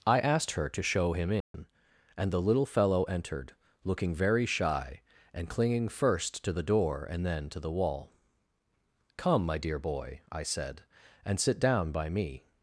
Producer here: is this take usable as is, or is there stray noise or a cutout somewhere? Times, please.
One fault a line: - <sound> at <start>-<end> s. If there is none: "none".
- dropout at 1.4-1.5 s